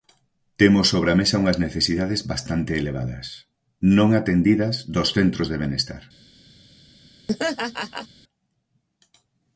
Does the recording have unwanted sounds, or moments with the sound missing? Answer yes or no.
yes